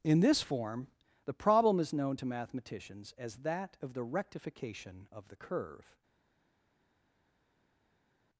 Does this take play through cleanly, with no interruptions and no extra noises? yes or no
yes